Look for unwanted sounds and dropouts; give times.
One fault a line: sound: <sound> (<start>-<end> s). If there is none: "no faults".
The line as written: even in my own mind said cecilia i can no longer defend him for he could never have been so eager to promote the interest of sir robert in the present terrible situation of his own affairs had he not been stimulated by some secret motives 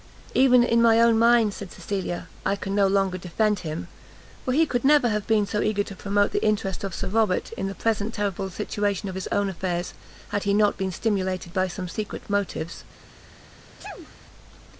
sound: sneeze (13.8-14.2 s)